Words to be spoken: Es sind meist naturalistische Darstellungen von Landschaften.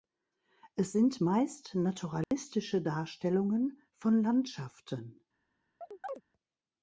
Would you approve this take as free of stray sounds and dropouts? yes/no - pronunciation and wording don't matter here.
no